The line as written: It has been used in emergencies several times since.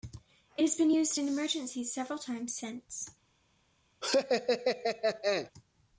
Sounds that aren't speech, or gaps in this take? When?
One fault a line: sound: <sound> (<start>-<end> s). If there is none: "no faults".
sound: laugh (4.0-5.5 s)